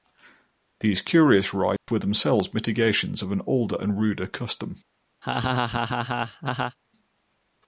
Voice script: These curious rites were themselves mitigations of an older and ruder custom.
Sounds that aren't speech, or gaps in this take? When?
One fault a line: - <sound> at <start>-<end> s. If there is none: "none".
- dropout at 1.8-1.9 s
- laugh at 5.2-6.8 s